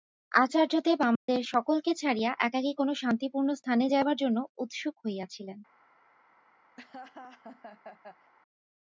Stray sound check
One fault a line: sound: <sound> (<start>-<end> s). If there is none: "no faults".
sound: dropout (1.2-1.3 s)
sound: laugh (6.8-8.3 s)